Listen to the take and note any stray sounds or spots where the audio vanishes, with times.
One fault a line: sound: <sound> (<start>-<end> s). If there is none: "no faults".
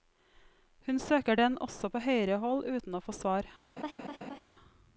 sound: laugh (3.8-4.4 s)